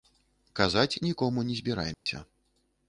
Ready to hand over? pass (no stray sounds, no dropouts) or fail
fail